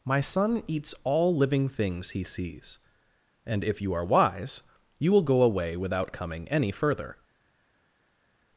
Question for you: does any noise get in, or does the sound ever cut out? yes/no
no